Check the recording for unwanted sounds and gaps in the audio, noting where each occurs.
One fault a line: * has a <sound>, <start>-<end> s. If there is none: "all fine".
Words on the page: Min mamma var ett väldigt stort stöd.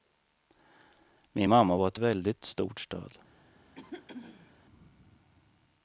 * has a throat clearing, 3.7-4.5 s